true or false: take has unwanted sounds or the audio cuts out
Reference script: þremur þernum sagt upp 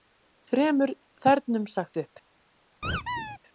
true